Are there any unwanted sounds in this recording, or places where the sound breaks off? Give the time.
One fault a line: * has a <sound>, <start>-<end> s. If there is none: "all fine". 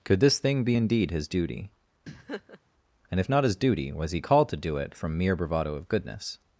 * has a laugh, 2.1-2.6 s